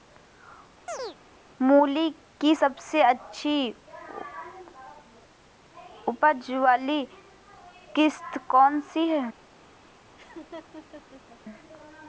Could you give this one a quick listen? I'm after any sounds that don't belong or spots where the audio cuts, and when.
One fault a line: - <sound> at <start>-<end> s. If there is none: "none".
- chirp at 0.9-1.2 s
- laugh at 10.2-11.4 s